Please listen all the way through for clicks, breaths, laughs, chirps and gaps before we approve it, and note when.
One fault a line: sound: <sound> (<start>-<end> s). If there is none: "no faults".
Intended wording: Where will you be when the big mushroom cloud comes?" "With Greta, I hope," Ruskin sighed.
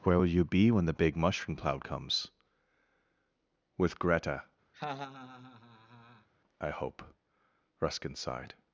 sound: laugh (4.7-6.3 s)